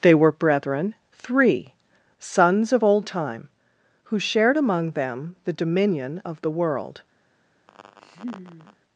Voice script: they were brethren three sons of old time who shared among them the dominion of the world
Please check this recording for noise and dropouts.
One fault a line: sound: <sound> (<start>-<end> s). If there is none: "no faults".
sound: laugh (7.7-8.8 s)